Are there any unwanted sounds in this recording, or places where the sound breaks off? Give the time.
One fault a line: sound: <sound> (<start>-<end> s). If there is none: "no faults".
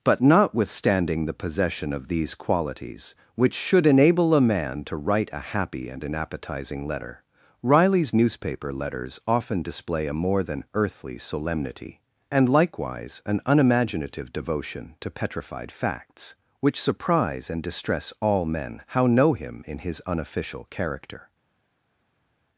no faults